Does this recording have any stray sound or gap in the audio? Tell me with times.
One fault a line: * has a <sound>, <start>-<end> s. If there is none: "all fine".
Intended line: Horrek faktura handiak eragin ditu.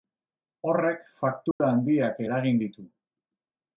* has a dropout, 1.5-1.6 s